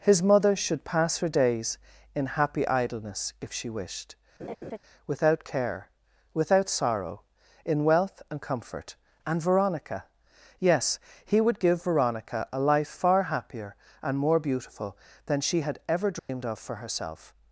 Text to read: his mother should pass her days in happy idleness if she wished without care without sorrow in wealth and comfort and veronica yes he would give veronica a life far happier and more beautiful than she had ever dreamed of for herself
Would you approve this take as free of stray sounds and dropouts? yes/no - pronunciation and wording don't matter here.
no